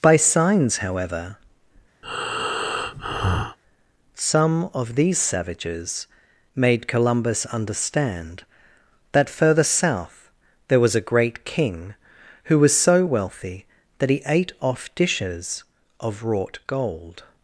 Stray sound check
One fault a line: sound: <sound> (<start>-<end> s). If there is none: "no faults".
sound: breath (2.0-3.6 s)